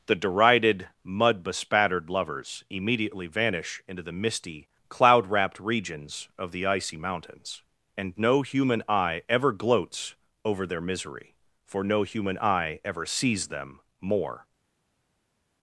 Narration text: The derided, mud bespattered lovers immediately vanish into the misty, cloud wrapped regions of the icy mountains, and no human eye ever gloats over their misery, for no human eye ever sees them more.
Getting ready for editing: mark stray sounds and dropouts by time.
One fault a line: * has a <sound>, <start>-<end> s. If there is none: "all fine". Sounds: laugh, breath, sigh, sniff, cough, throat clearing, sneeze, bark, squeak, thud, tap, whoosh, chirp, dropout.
all fine